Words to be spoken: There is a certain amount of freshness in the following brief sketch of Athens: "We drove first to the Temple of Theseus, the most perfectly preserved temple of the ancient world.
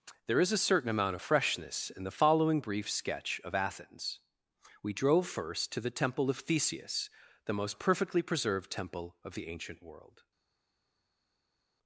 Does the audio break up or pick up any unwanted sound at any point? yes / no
no